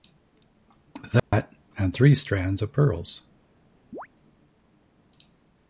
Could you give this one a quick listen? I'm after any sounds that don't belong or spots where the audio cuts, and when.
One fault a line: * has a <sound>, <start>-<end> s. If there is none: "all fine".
* has a dropout, 1.2-1.3 s
* has a chirp, 3.9-4.1 s